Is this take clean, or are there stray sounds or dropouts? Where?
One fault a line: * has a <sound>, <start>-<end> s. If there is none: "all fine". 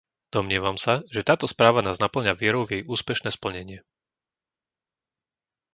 all fine